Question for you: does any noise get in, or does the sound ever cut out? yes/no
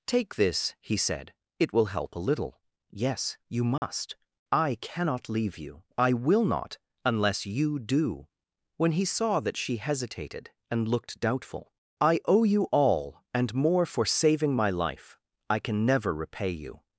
yes